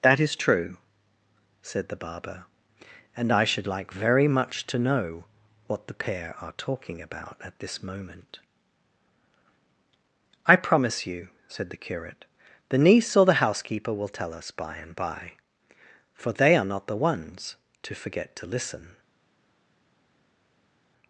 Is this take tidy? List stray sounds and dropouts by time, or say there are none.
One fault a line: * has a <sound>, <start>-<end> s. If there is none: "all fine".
all fine